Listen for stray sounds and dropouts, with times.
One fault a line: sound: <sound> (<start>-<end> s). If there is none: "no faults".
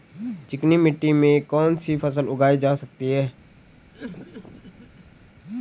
sound: cough (3.9-5.2 s)